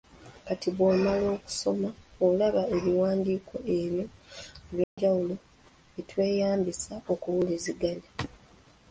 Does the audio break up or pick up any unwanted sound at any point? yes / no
yes